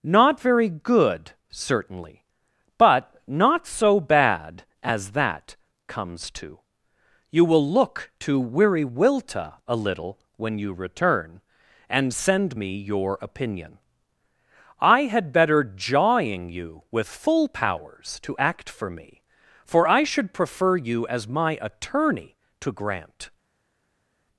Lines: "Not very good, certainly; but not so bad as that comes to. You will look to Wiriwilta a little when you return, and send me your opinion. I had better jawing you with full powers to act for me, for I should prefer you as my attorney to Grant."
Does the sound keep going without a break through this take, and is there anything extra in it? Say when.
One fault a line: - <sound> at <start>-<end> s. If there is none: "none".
none